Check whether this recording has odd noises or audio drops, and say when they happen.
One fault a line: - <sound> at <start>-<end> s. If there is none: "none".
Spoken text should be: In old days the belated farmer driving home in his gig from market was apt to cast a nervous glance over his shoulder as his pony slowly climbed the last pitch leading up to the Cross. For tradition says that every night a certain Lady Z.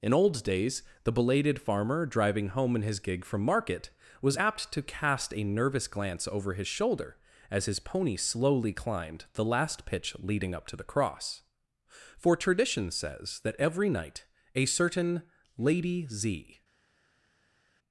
none